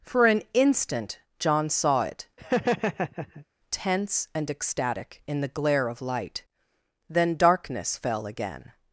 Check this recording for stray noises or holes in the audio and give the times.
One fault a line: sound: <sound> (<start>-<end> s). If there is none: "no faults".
sound: laugh (2.4-3.5 s)